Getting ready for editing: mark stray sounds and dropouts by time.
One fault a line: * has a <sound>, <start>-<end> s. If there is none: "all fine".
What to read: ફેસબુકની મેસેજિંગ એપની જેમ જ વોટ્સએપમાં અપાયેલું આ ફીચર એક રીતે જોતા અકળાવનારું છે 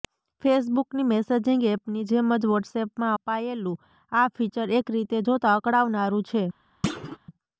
* has a thud, 6.8-7.2 s